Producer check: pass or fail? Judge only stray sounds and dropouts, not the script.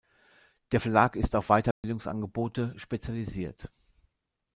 fail